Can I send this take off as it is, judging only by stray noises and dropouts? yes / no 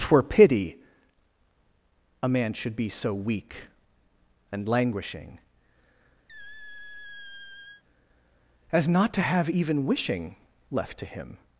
no